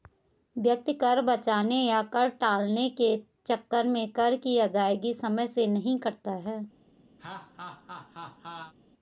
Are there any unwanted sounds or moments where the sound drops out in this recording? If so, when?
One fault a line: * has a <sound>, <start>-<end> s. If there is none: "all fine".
* has a laugh, 7.2-8.7 s